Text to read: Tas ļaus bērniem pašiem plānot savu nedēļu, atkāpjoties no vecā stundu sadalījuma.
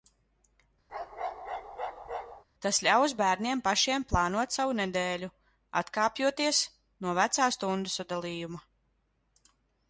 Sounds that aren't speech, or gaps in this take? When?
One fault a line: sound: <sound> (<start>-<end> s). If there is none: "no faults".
sound: bark (0.9-2.4 s)